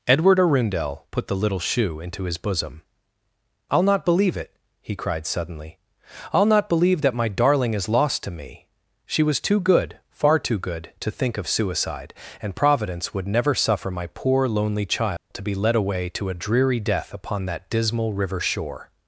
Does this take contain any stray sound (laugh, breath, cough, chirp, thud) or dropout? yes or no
yes